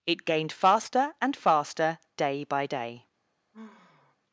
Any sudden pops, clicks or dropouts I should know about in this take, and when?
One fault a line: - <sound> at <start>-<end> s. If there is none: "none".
- sigh at 3.5-4.2 s